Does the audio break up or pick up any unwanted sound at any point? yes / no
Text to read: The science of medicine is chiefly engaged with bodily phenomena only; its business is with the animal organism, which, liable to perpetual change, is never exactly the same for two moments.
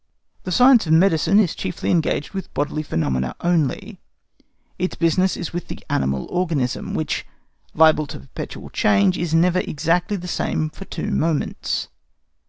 no